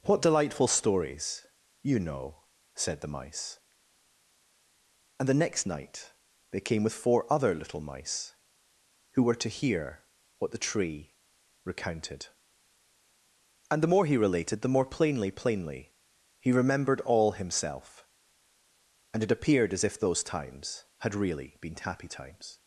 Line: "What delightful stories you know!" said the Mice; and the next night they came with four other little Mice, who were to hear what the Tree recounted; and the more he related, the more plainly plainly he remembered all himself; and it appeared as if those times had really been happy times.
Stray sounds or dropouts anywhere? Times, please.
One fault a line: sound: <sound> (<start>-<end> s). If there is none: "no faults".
no faults